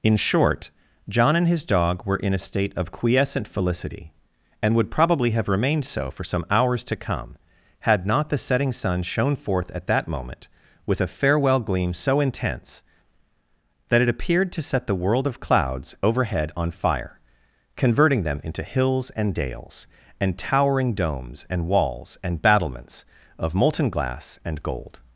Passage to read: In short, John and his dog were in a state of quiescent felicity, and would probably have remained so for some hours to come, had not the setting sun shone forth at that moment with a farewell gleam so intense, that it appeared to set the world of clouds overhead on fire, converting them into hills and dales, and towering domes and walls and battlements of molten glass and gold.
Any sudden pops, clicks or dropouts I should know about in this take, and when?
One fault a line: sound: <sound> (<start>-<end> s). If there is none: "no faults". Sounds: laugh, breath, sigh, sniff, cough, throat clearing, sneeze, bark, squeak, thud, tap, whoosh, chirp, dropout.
no faults